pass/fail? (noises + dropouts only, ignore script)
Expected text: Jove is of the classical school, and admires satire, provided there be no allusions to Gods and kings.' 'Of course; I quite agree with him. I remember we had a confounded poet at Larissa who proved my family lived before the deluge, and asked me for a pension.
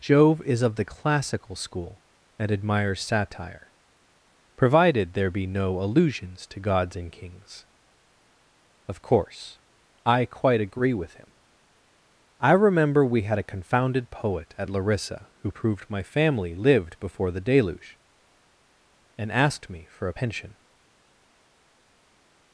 pass